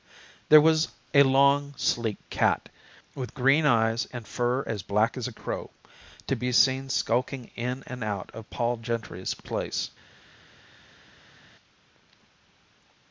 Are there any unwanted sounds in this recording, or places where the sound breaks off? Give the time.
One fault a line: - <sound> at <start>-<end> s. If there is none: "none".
none